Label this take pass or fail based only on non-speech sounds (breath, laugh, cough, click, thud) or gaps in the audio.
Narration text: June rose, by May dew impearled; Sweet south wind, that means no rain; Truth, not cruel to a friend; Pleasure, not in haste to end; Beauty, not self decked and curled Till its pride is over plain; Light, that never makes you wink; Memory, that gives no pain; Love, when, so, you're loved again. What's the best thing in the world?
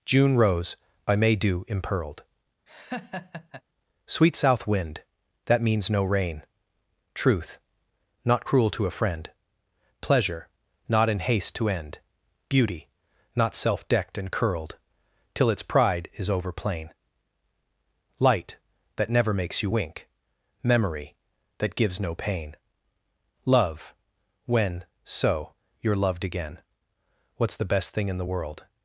fail